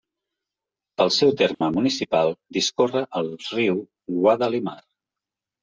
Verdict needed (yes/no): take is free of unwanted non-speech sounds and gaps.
no